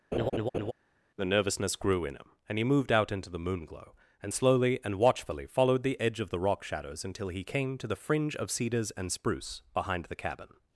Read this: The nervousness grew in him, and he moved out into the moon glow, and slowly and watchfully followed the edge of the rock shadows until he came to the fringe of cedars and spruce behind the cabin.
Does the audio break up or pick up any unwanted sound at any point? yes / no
yes